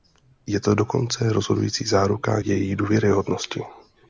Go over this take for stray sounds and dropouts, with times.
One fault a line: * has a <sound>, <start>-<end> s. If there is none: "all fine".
all fine